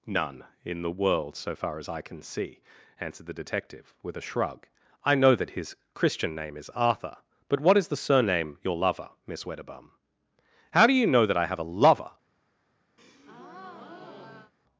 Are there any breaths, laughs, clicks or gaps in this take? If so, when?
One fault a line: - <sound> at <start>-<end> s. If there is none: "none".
- breath at 13.0-14.5 s